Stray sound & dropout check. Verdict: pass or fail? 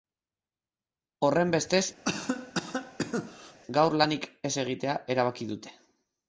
fail